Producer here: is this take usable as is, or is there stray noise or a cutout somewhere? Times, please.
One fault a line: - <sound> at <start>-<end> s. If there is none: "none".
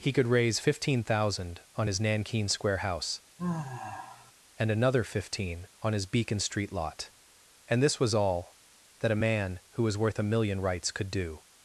- sigh at 3.4-4.3 s